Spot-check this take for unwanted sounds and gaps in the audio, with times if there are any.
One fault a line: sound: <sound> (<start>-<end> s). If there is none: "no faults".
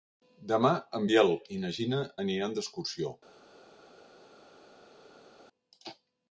no faults